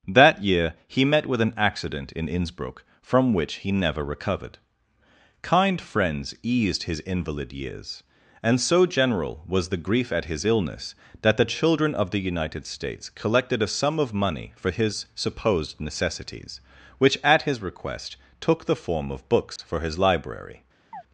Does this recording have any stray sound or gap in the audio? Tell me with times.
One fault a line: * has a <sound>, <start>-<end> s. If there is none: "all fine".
* has a dropout, 19.6-19.6 s
* has a chirp, 20.9-21.0 s